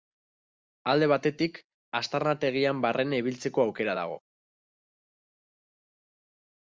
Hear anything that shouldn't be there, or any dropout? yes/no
no